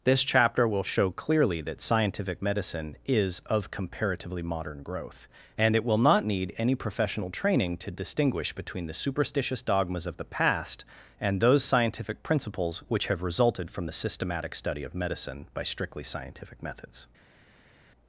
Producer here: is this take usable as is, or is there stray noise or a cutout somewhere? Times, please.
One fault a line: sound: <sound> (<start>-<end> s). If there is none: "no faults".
no faults